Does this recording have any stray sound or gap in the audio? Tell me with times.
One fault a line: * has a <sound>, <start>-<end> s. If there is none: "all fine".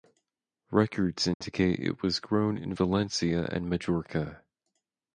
* has a dropout, 1.3-1.4 s